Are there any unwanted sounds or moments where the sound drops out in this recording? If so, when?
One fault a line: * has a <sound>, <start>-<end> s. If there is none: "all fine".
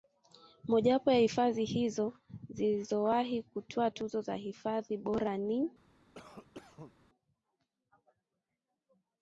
* has a cough, 6.1-6.9 s